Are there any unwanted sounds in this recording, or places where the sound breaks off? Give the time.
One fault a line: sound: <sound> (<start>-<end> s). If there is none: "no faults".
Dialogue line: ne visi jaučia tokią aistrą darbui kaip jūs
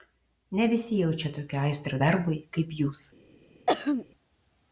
sound: throat clearing (3.7-4.1 s)